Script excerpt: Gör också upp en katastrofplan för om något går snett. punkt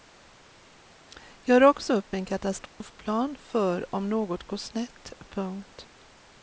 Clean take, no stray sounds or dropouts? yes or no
no